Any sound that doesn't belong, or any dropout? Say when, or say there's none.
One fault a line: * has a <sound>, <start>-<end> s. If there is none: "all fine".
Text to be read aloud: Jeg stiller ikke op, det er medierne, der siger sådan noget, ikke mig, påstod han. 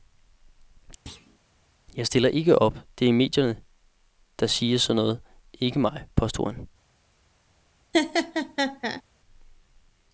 * has a thud, 1.1-1.4 s
* has a laugh, 7.9-9.0 s